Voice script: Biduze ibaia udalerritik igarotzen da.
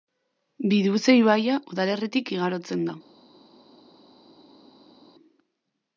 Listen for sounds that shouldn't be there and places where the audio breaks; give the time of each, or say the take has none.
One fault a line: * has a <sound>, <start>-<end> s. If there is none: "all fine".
all fine